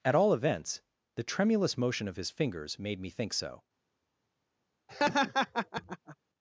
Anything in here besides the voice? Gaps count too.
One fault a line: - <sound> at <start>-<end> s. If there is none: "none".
- laugh at 4.9-6.2 s